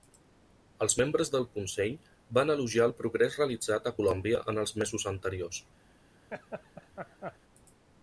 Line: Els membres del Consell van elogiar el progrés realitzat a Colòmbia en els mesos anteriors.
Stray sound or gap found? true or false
true